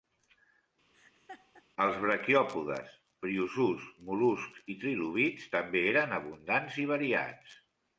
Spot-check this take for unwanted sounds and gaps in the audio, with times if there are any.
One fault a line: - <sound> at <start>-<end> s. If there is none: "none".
- laugh at 0.9-1.6 s